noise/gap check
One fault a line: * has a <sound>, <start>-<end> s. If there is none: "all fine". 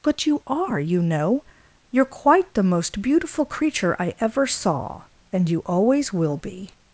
all fine